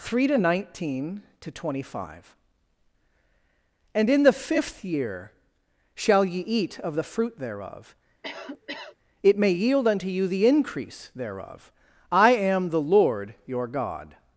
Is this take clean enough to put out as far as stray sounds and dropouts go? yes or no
no